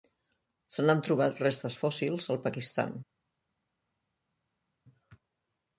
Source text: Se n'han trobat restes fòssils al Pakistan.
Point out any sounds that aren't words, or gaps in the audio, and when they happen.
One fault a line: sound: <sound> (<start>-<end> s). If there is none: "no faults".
no faults